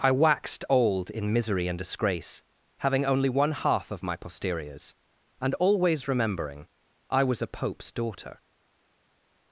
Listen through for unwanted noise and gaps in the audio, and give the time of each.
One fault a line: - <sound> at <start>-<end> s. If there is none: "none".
none